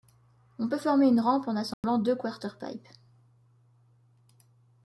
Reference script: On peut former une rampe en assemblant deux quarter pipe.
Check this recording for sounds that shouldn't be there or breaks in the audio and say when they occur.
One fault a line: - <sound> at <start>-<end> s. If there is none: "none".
- dropout at 1.7-1.8 s